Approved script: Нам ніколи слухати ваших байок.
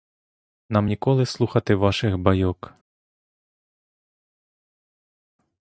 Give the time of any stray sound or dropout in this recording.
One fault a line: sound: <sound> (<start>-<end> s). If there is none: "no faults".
no faults